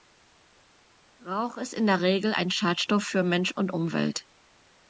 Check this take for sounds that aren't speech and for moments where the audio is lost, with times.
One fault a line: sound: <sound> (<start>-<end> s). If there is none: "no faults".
no faults